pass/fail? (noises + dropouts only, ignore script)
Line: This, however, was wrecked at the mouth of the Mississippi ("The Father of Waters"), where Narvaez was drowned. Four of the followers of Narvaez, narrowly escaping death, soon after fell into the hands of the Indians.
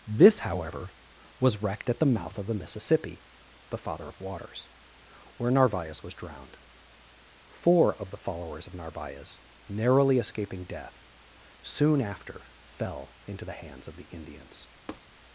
fail